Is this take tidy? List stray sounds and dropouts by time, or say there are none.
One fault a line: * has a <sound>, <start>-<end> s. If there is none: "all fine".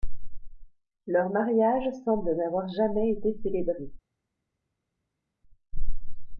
all fine